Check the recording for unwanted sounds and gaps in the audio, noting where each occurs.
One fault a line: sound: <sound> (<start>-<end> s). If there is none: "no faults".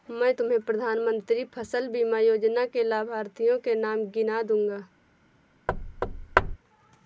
sound: thud (5.7-6.6 s)